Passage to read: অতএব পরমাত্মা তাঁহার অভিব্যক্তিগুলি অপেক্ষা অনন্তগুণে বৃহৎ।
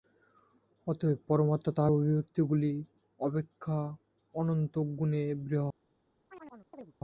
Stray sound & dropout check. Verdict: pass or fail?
fail